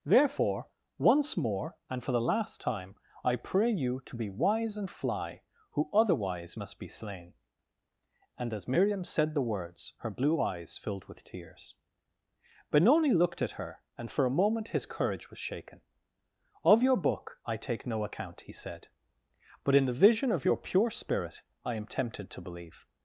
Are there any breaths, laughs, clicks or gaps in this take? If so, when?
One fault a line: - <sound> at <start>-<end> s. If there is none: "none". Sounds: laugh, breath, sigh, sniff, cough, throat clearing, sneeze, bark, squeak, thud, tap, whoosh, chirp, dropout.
none